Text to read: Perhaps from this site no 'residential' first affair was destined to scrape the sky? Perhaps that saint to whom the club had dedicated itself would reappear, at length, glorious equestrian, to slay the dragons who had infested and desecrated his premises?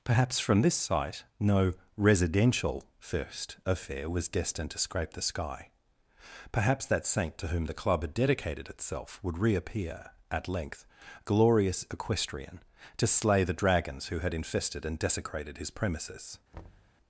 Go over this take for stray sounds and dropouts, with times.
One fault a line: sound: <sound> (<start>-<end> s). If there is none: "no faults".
sound: thud (16.5-16.9 s)